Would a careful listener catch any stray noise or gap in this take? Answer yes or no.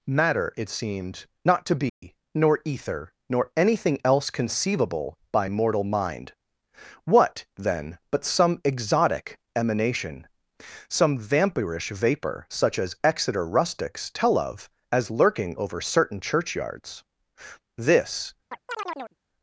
yes